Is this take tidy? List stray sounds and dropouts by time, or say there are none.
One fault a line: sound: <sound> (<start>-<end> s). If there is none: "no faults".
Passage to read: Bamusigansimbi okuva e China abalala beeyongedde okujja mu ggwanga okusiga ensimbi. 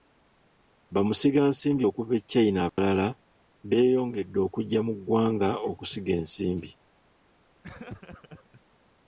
sound: dropout (2.7-2.8 s)
sound: laugh (7.6-8.6 s)